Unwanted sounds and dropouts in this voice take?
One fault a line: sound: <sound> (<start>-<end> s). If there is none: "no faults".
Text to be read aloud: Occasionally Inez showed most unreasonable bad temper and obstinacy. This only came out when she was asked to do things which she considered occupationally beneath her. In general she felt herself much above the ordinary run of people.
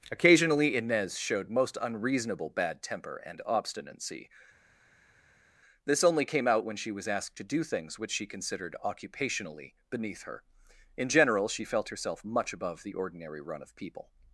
no faults